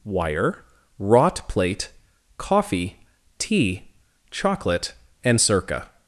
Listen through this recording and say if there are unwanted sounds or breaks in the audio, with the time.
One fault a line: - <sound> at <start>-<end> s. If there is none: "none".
none